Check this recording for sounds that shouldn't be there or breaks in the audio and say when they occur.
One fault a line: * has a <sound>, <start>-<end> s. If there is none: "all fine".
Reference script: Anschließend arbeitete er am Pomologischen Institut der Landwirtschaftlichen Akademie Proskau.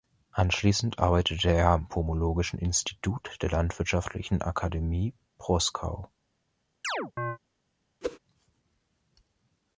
* has a chirp, 6.8-7.4 s
* has a whoosh, 8.0-8.2 s